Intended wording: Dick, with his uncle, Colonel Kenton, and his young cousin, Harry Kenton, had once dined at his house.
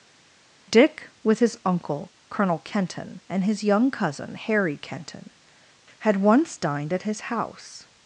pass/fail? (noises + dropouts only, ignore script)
pass